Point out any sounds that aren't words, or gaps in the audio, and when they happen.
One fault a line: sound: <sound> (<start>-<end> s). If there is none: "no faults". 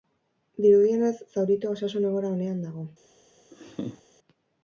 sound: laugh (3.5-4.0 s)